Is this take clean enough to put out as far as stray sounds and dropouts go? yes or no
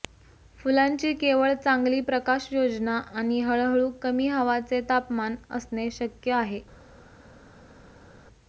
yes